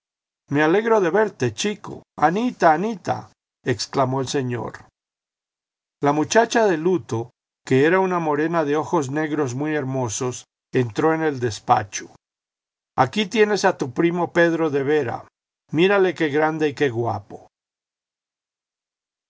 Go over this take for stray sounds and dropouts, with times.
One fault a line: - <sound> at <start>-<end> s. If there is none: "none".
none